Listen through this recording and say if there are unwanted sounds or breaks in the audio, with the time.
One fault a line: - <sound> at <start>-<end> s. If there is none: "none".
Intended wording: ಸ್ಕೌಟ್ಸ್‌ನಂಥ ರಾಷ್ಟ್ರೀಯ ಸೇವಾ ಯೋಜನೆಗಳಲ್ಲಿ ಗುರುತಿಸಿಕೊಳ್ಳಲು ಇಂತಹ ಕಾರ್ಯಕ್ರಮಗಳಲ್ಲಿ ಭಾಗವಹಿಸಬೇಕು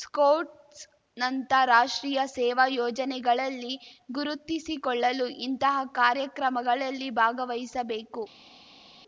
none